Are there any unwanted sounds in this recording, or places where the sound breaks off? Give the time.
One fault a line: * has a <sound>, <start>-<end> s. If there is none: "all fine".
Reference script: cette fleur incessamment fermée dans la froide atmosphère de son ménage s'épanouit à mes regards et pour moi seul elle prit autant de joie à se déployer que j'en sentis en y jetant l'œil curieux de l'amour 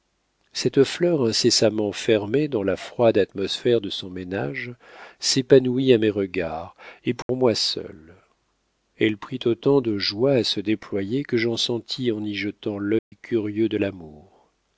* has a dropout, 7.2-7.3 s
* has a dropout, 13.0-13.1 s